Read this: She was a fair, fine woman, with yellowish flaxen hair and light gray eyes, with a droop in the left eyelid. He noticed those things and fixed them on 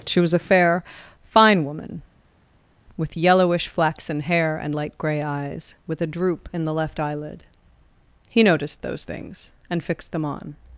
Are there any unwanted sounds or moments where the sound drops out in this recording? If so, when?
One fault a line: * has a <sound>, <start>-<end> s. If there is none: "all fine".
all fine